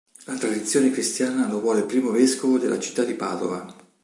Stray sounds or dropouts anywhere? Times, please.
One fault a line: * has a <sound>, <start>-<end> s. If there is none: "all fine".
all fine